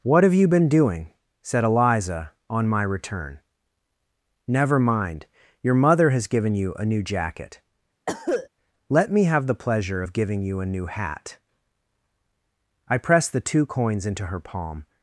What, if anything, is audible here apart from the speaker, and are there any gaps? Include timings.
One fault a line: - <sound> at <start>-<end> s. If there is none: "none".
- cough at 8.1-8.5 s